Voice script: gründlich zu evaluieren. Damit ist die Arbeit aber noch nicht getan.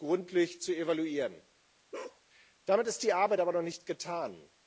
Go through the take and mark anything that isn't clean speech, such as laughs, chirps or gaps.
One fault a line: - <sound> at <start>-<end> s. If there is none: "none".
- bark at 1.9-2.2 s